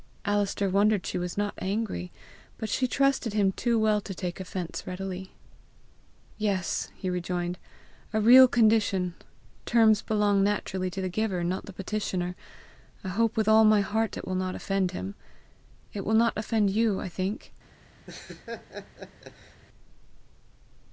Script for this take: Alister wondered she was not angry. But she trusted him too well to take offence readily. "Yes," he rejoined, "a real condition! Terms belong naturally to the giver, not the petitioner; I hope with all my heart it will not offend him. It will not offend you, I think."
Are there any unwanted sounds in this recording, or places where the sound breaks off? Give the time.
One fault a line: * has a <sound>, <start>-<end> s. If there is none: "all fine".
* has a laugh, 18.1-19.6 s